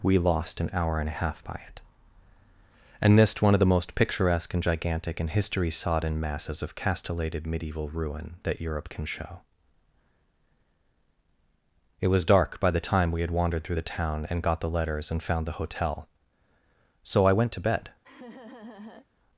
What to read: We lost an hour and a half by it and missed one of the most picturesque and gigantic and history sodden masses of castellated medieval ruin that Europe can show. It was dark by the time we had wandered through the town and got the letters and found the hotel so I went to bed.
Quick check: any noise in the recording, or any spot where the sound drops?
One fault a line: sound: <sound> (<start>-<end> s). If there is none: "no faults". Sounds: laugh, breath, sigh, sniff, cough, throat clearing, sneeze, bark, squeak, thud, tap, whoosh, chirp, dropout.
sound: laugh (18.0-19.1 s)